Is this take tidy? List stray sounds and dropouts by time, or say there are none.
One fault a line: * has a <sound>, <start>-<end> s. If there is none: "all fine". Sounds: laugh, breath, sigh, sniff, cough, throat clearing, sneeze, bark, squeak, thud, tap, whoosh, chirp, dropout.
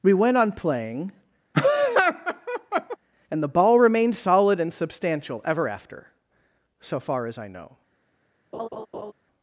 * has a laugh, 1.5-3.0 s
* has a laugh, 8.5-9.1 s